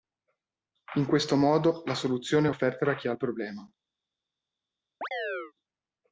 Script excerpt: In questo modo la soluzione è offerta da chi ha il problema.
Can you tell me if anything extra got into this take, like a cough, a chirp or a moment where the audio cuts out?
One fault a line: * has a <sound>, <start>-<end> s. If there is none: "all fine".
* has a chirp, 5.0-5.5 s